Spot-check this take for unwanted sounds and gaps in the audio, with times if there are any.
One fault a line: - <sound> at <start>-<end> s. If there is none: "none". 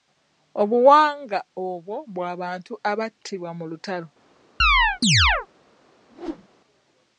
- chirp at 4.6-5.5 s
- whoosh at 6.1-6.5 s